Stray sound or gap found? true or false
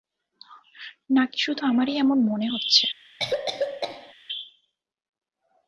true